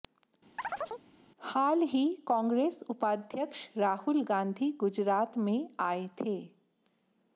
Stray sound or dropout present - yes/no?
yes